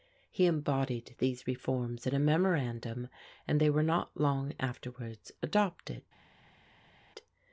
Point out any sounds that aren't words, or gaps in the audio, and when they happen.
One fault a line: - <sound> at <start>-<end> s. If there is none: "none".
none